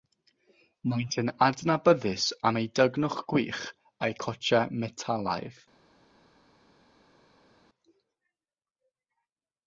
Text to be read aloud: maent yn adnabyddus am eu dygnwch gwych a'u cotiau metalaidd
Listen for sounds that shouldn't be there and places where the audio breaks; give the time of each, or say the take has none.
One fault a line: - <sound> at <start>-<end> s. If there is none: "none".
none